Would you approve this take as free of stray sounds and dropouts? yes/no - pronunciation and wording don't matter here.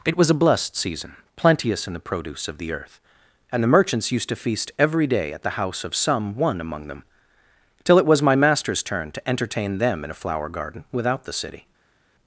yes